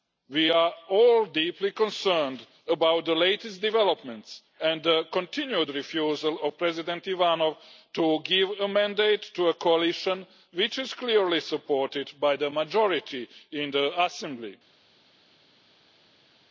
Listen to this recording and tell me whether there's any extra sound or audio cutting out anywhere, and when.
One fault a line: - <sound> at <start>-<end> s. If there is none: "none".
none